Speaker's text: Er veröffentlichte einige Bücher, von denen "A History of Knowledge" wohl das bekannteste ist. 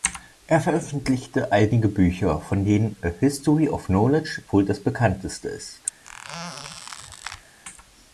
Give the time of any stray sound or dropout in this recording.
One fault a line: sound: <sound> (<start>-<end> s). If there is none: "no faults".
sound: squeak (6.0-7.6 s)